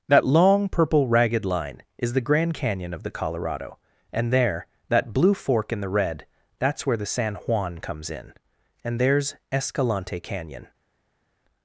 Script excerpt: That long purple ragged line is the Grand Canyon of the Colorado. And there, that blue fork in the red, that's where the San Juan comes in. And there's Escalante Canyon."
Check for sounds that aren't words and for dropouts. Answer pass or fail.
pass